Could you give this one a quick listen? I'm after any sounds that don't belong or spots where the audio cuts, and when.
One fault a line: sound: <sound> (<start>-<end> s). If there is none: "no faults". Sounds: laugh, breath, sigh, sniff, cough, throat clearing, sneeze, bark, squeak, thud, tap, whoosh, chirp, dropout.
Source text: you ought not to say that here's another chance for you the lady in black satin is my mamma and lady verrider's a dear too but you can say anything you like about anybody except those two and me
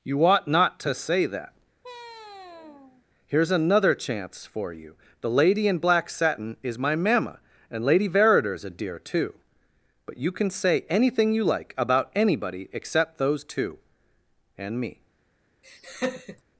sound: sigh (1.8-3.0 s)
sound: laugh (15.6-16.4 s)